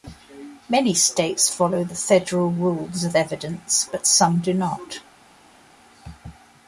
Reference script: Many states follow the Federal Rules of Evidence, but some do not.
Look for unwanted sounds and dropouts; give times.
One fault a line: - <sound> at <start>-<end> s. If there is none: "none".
none